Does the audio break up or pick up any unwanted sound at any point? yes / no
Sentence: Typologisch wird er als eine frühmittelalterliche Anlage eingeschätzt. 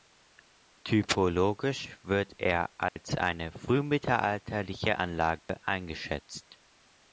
yes